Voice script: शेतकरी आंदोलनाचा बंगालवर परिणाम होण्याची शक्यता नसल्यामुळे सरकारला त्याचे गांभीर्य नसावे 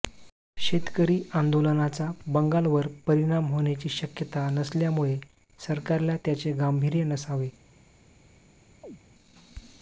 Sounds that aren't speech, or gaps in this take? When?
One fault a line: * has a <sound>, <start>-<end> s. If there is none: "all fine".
* has a chirp, 8.8-9.0 s